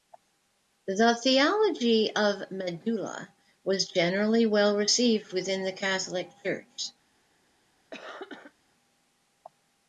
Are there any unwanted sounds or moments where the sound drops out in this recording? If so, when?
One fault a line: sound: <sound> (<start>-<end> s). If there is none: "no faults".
sound: cough (7.9-8.5 s)